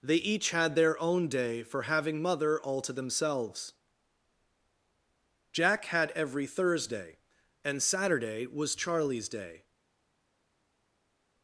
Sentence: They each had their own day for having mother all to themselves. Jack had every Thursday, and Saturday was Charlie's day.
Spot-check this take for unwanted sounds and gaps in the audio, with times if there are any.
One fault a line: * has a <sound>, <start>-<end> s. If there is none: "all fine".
all fine